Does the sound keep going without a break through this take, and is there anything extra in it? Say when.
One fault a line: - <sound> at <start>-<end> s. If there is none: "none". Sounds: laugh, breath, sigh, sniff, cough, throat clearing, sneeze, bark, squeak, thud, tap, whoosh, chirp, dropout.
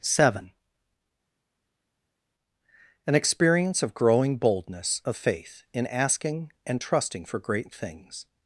none